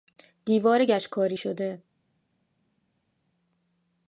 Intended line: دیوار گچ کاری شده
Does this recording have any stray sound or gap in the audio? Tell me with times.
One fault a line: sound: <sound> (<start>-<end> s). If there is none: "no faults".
no faults